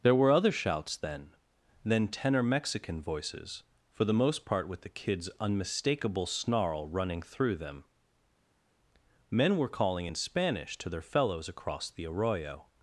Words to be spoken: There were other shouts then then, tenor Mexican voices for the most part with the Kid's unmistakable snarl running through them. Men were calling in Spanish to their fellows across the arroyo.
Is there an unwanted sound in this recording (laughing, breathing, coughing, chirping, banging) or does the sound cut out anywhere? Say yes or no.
no